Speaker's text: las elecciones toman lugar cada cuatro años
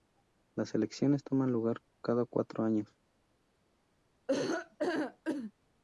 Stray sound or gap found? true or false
true